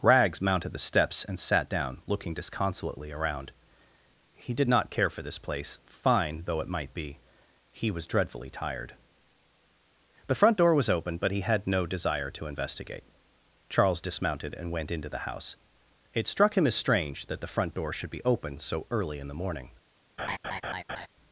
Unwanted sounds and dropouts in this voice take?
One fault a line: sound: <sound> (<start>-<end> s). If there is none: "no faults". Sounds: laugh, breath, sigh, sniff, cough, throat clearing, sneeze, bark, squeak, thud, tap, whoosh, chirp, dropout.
sound: laugh (20.2-21.1 s)